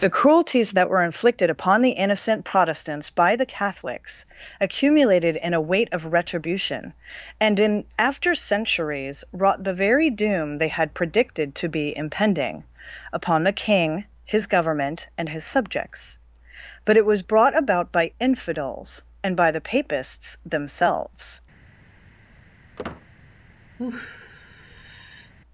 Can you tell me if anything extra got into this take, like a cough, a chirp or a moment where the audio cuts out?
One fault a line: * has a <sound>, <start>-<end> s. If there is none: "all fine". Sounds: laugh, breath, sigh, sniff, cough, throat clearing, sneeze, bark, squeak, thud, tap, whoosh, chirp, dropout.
* has a squeak, 22.8-23.1 s
* has a sigh, 23.8-25.3 s